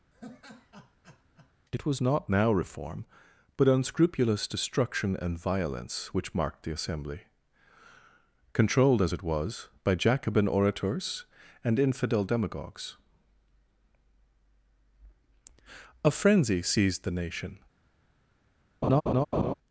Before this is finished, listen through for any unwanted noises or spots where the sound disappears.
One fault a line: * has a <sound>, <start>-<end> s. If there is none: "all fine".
* has a laugh, 0.1-1.5 s
* has a laugh, 18.8-19.5 s